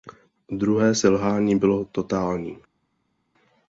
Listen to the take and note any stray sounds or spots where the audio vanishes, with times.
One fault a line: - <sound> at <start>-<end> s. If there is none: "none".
none